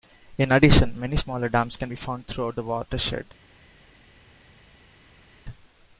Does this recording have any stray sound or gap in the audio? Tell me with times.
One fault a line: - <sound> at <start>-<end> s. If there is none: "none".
none